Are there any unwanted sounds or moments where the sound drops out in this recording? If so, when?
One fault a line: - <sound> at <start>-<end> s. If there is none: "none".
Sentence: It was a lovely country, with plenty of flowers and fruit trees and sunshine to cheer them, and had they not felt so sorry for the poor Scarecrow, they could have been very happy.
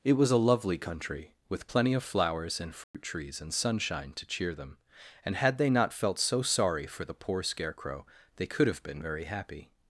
- dropout at 2.8-2.9 s